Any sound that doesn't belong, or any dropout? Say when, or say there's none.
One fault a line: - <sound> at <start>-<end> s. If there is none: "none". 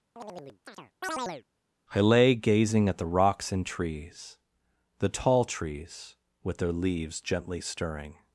- chirp at 0.2-1.4 s